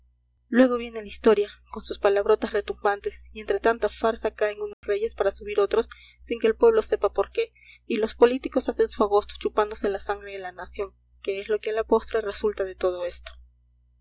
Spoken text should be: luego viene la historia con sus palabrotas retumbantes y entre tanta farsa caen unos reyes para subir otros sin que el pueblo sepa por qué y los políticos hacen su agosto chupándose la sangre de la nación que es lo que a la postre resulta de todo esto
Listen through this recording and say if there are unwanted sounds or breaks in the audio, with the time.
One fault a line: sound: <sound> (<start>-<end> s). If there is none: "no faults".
sound: dropout (4.7-4.8 s)